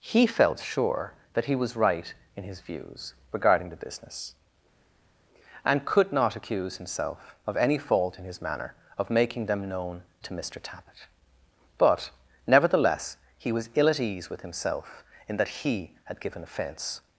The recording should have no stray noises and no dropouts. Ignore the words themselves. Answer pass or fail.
pass